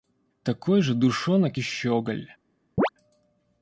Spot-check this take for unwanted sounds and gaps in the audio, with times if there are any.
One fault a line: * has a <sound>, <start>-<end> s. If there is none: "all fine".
* has a chirp, 2.8-2.9 s